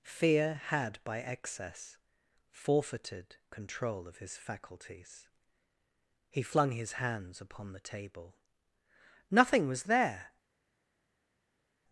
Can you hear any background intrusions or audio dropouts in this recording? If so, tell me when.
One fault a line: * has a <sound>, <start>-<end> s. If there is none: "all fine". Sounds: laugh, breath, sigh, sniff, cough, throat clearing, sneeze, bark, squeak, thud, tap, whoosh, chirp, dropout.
all fine